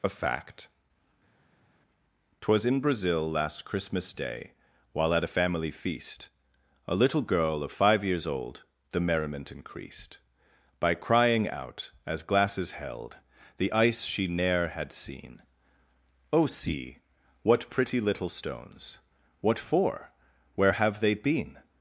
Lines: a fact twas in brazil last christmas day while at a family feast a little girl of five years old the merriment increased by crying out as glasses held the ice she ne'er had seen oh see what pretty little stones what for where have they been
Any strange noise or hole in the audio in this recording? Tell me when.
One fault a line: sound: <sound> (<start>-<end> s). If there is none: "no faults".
no faults